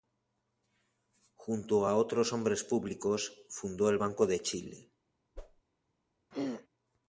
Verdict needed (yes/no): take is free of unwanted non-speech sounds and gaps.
no